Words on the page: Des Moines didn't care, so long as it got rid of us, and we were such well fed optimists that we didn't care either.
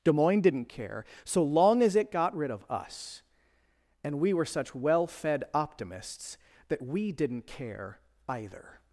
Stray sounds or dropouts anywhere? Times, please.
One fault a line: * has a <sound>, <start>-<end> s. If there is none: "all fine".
all fine